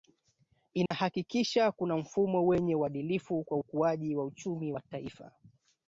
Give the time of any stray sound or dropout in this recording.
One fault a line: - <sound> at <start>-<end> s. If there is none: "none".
- dropout at 0.9-0.9 s